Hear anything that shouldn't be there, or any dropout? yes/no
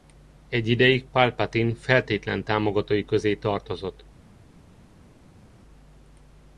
no